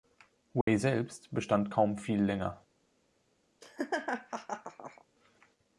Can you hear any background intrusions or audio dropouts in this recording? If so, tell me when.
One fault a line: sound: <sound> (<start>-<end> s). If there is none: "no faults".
sound: dropout (0.6-0.7 s)
sound: laugh (3.6-5.0 s)